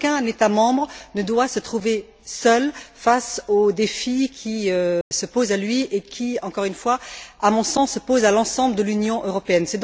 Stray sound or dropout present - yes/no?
yes